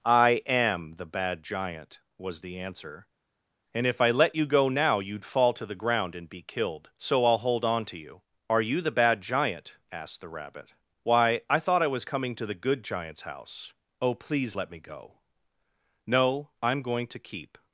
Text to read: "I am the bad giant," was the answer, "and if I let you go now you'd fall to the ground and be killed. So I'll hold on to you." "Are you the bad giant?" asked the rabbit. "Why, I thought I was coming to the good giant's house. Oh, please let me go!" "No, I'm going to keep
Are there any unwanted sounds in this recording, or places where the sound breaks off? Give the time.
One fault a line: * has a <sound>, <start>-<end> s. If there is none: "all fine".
all fine